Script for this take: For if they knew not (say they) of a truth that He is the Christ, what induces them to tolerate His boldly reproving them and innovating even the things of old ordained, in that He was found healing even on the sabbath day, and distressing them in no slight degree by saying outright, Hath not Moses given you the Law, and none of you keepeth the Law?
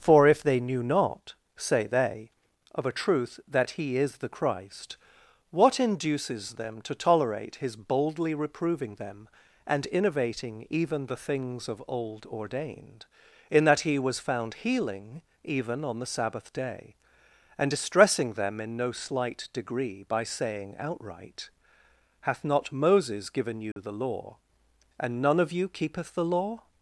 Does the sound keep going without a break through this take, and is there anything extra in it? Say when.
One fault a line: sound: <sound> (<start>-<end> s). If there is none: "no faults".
sound: dropout (23.7-23.8 s)